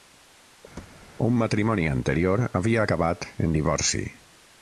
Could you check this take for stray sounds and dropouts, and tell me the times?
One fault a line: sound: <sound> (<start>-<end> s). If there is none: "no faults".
sound: thud (0.8-1.1 s)